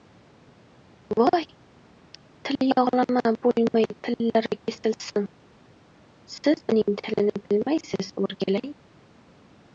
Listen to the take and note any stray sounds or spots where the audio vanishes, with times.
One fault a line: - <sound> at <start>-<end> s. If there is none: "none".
none